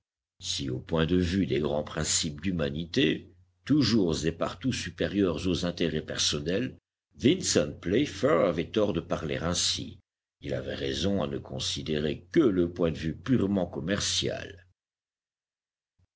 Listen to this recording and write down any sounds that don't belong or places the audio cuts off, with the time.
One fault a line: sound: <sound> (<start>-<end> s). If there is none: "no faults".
no faults